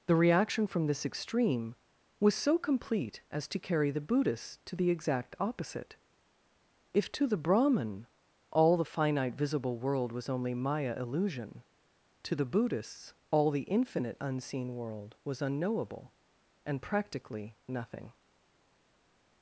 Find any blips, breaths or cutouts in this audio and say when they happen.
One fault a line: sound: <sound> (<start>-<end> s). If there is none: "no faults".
no faults